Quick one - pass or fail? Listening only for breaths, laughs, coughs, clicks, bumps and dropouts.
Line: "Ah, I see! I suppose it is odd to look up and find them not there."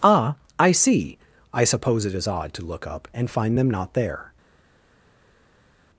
pass